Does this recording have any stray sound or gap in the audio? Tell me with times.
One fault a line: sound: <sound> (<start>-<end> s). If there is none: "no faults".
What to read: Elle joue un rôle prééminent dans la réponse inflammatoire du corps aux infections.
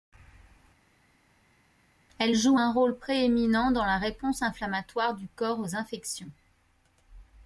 no faults